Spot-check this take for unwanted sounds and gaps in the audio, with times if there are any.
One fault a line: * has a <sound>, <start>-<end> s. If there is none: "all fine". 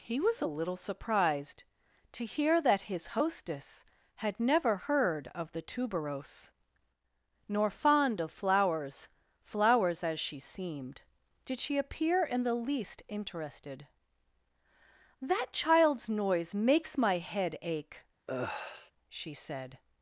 * has a sigh, 18.3-18.9 s